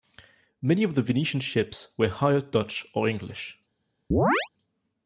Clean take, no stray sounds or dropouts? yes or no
no